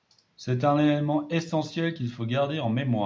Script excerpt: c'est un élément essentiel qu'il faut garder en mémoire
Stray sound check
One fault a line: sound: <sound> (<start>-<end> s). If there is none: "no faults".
no faults